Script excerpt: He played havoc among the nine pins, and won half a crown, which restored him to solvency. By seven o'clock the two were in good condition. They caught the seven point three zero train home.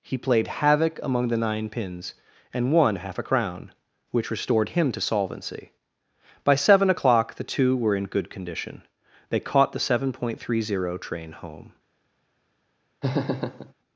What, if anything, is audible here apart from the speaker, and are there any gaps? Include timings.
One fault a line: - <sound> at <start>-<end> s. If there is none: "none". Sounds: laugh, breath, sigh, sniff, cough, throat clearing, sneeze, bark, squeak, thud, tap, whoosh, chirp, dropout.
- laugh at 13.0-13.7 s